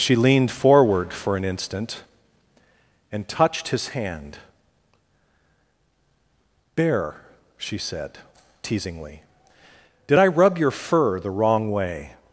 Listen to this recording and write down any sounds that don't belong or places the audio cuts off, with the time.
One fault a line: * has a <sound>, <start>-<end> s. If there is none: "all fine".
all fine